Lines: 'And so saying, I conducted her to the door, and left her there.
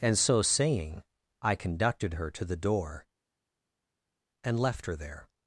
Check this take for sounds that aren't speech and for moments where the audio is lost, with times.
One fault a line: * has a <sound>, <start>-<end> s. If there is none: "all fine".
all fine